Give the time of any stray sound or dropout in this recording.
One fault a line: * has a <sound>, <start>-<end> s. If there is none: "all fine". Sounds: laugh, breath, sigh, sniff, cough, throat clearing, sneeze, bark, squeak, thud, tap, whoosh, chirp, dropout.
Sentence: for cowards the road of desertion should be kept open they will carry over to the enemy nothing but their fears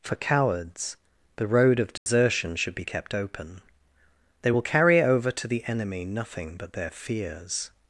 * has a dropout, 2.0-2.1 s